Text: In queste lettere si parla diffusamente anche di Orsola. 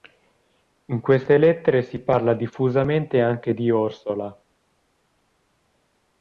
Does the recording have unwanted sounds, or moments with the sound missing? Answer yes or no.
no